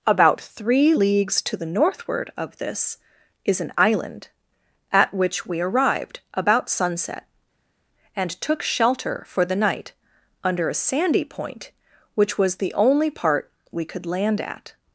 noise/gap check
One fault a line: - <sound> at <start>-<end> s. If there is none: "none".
none